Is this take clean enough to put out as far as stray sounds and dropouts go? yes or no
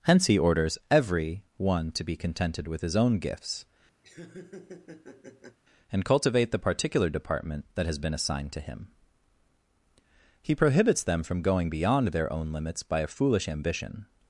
no